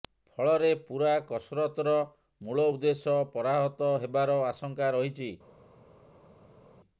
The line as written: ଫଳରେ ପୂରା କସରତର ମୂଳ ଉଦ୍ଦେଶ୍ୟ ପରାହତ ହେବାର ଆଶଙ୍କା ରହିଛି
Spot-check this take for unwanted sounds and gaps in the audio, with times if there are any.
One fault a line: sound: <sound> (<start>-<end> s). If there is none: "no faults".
no faults